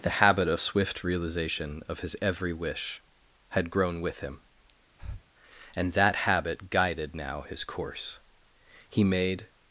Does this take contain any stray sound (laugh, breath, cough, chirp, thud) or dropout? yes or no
yes